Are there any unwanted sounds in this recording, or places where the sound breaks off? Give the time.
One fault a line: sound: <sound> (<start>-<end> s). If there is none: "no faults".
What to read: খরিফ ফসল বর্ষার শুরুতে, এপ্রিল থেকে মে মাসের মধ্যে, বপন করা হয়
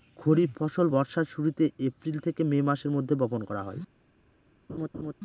sound: laugh (4.7-5.1 s)